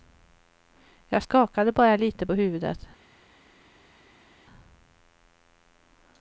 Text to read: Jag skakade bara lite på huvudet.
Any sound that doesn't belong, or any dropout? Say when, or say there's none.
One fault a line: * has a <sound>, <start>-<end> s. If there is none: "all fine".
all fine